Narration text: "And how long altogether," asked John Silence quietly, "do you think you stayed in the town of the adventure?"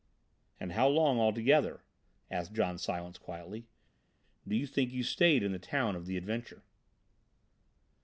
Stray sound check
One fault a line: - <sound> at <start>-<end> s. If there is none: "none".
none